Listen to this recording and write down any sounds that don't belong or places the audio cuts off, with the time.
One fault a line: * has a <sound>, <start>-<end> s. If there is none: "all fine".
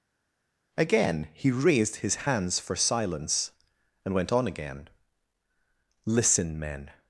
all fine